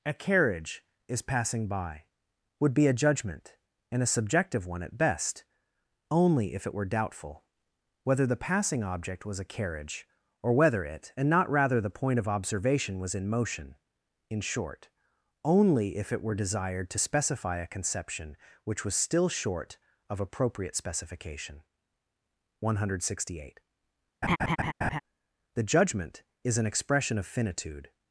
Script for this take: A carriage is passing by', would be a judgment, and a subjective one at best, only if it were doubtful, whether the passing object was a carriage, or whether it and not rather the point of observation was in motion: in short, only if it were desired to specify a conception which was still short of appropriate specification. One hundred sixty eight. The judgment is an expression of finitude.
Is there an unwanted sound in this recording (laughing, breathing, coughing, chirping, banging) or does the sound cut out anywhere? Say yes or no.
yes